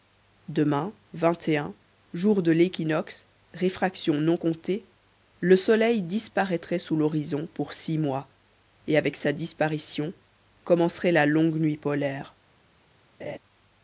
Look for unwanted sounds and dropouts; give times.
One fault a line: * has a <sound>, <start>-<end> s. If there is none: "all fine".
* has a laugh, 13.2-13.4 s